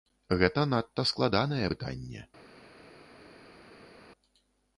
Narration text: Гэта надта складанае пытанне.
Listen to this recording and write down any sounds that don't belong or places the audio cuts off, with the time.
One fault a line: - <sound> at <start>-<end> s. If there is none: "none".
none